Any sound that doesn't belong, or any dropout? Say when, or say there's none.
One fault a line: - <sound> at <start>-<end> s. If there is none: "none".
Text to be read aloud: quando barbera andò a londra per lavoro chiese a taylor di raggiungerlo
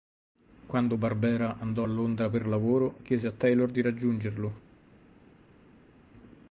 none